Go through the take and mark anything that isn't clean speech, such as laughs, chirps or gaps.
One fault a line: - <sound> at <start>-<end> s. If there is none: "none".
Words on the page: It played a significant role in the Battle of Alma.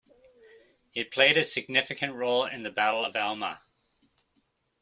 none